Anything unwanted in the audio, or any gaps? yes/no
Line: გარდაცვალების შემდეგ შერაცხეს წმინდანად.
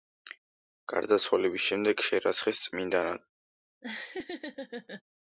yes